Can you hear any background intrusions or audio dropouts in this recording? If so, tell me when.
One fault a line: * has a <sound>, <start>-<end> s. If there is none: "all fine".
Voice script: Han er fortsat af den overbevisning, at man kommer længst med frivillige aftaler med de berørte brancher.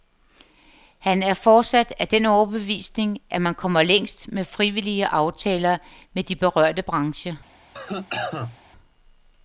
* has a cough, 7.7-8.6 s